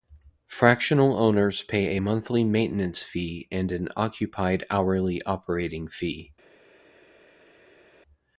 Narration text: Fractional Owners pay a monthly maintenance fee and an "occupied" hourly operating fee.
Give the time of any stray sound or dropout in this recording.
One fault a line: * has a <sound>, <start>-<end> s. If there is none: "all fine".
all fine